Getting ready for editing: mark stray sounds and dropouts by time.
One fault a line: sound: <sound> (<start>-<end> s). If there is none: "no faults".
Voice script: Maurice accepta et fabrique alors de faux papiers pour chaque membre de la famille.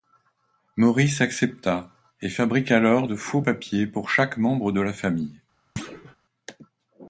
sound: thud (5.8-6.2 s)